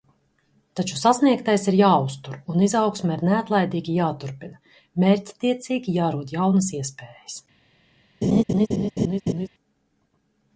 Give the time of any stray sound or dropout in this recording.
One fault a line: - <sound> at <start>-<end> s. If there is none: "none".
- laugh at 8.2-9.5 s